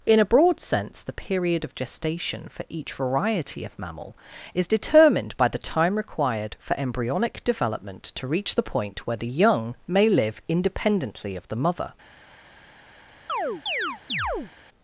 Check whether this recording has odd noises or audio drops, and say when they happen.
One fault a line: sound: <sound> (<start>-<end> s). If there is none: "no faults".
sound: chirp (13.3-14.5 s)